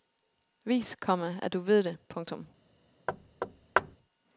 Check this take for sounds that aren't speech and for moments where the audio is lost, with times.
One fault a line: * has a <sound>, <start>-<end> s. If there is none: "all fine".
* has a thud, 3.1-4.0 s